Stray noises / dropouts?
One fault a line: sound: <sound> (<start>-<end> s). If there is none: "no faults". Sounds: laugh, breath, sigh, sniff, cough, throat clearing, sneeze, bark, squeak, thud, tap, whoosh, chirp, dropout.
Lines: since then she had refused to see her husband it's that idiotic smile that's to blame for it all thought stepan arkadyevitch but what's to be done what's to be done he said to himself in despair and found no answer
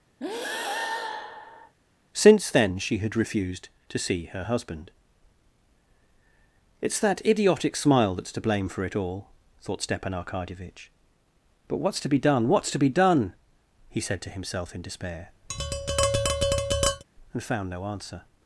sound: breath (0.2-1.7 s)
sound: tap (15.5-17.0 s)